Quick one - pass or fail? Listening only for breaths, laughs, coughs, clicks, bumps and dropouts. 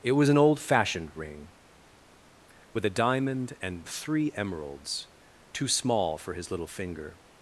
pass